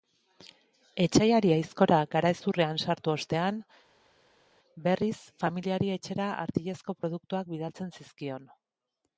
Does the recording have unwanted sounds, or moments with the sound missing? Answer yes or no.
no